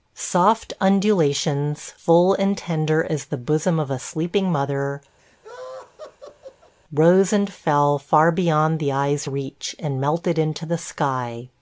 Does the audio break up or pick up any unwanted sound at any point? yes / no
yes